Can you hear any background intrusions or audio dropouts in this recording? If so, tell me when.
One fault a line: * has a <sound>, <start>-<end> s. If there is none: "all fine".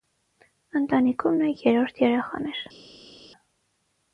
all fine